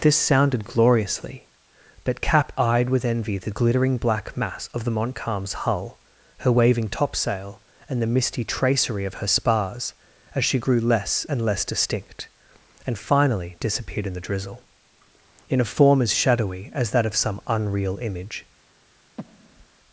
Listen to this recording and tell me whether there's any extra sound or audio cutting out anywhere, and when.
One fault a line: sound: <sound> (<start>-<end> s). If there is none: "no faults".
sound: breath (19.2-19.7 s)